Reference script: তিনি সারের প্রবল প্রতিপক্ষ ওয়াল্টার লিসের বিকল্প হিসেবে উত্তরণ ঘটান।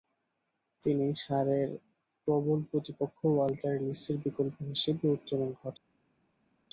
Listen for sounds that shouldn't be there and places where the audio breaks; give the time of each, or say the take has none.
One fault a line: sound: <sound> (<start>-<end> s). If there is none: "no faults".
no faults